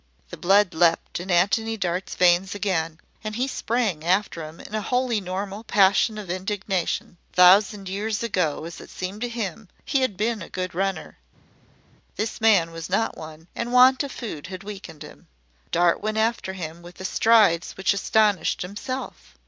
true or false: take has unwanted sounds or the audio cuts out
false